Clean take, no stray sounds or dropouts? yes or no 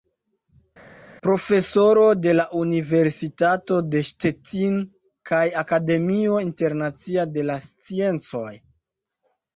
yes